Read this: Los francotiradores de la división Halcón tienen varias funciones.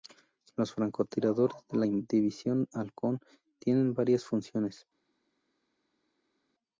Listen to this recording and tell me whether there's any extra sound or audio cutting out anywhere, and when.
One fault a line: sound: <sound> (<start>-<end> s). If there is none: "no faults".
no faults